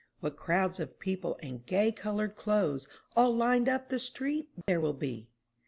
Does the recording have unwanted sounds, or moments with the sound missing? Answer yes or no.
yes